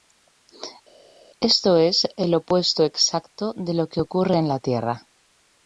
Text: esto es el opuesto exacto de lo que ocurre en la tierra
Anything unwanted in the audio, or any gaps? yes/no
no